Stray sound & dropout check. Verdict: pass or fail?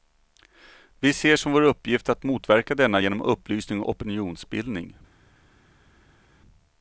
pass